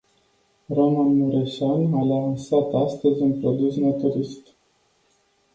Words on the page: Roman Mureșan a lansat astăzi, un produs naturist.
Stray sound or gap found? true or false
false